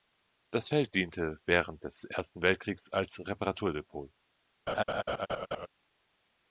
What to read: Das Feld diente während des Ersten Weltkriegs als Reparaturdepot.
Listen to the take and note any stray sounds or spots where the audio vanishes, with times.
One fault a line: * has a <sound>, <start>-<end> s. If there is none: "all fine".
* has a laugh, 4.7-5.7 s